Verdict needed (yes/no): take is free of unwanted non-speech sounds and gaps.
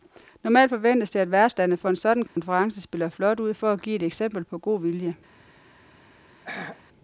no